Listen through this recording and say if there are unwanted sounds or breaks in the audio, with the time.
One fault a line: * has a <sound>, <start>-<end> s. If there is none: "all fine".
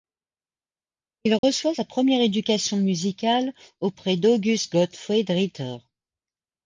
* has a dropout, 1.4-1.4 s